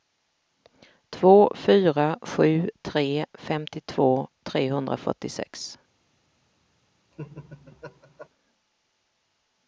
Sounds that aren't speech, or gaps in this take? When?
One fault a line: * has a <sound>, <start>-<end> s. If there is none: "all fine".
* has a laugh, 7.1-8.3 s